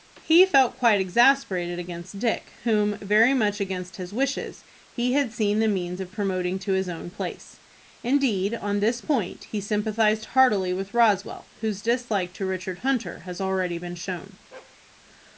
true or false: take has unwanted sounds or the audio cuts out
true